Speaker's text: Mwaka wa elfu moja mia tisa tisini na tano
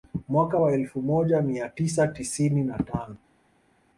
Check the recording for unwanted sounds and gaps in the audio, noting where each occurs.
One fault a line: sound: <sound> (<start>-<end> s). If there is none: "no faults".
no faults